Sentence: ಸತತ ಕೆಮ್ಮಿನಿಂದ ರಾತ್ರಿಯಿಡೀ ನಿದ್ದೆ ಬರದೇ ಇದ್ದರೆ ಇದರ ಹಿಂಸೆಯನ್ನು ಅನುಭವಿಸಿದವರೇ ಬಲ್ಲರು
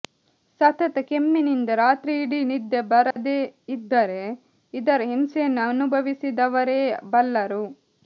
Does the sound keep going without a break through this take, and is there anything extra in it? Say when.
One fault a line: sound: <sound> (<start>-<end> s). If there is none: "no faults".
sound: dropout (3.1-3.2 s)